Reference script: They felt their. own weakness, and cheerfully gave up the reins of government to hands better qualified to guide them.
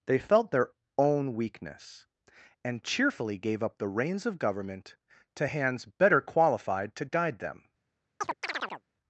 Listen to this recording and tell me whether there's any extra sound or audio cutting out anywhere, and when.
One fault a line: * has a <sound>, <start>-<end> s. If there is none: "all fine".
* has a chirp, 8.2-8.8 s